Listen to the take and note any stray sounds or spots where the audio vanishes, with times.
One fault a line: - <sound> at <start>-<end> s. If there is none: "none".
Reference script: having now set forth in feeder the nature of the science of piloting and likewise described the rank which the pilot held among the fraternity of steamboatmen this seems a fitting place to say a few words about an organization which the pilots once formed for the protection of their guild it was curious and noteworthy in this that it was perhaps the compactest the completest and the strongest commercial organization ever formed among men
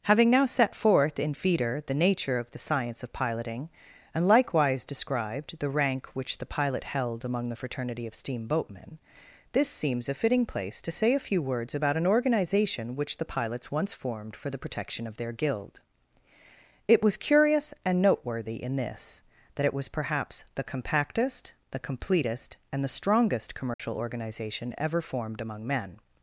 - dropout at 23.7-23.8 s